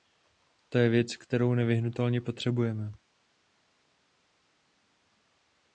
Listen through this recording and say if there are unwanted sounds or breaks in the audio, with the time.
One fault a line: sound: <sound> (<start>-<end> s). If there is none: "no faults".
no faults